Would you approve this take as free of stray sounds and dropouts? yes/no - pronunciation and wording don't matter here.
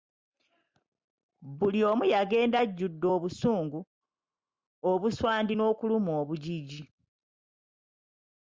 yes